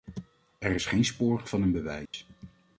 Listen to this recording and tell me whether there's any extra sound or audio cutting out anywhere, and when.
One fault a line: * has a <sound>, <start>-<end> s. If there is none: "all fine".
* has a dropout, 2.1-2.1 s